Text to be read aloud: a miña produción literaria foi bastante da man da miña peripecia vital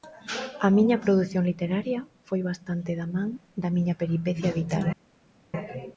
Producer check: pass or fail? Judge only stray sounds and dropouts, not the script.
pass